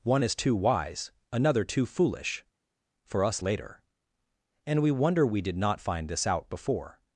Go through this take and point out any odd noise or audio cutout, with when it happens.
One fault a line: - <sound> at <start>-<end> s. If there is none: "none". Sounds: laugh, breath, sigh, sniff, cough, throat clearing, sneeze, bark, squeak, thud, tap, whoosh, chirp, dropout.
none